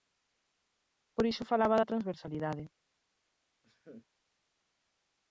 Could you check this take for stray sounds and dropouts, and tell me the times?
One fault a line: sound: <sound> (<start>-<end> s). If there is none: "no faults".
sound: laugh (3.6-4.1 s)